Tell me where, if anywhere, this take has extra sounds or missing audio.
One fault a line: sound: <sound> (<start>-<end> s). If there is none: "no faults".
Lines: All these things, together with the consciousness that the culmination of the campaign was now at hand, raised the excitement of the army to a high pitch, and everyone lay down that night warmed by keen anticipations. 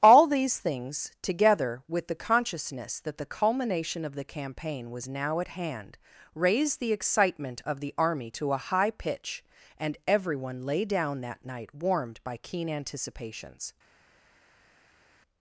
no faults